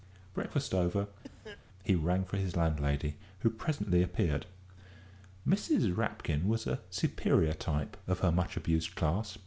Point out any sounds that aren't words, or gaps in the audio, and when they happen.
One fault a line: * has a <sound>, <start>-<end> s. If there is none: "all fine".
* has a cough, 1.2-1.6 s